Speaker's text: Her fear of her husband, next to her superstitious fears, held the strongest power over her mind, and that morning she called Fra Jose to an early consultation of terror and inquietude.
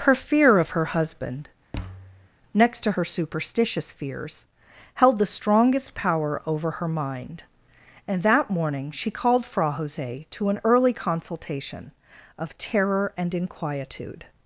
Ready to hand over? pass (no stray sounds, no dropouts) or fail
fail